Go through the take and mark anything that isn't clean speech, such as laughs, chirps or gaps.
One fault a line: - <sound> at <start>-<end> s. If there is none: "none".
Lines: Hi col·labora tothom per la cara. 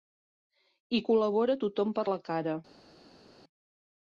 none